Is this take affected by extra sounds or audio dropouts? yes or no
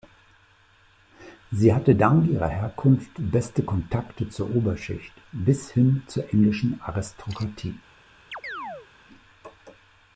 yes